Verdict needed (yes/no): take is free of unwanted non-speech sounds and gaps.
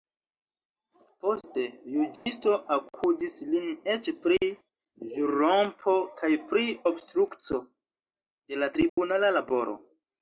no